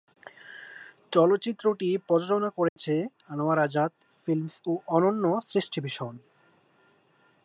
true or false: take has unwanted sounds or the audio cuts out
true